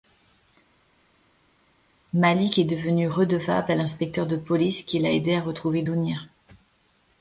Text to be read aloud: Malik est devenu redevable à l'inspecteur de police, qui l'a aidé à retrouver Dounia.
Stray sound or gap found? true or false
false